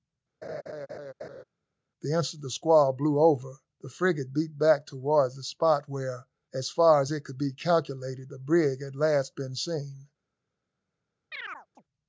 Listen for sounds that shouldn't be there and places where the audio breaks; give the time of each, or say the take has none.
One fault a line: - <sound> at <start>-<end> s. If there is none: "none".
- laugh at 0.4-1.4 s
- chirp at 11.3-11.8 s